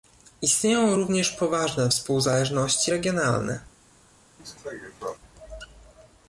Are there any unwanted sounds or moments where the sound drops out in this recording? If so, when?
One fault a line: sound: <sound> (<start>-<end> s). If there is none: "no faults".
sound: cough (4.4-5.2 s)